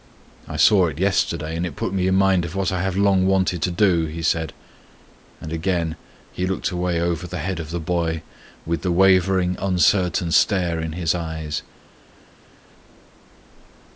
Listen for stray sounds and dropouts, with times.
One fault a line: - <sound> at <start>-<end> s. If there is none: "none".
none